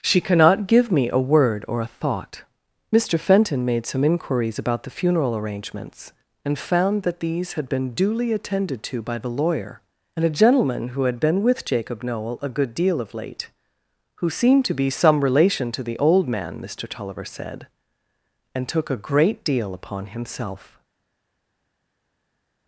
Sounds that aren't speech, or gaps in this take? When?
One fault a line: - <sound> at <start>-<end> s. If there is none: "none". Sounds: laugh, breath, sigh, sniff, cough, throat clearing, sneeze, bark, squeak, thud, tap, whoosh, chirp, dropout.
none